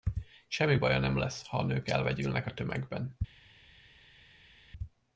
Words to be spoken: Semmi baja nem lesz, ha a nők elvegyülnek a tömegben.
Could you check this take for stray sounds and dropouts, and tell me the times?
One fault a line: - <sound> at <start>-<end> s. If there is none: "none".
none